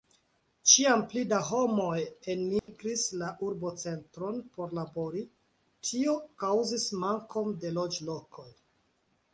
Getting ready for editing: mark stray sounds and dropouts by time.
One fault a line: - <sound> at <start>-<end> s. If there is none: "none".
- dropout at 2.6-2.7 s